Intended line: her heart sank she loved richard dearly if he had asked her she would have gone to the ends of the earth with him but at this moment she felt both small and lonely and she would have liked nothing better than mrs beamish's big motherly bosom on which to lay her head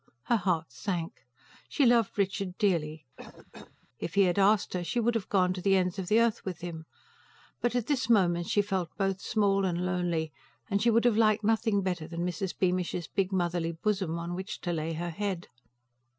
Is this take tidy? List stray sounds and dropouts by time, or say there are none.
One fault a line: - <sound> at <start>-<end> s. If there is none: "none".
- cough at 3.2-3.9 s